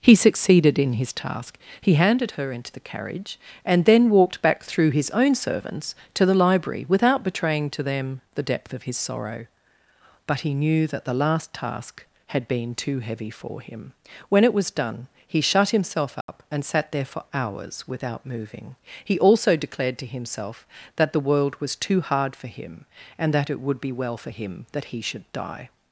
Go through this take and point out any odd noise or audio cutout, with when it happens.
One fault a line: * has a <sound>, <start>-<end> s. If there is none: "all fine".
* has a dropout, 16.2-16.3 s